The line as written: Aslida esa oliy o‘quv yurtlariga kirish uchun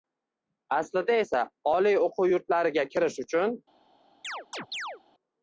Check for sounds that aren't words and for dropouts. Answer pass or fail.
fail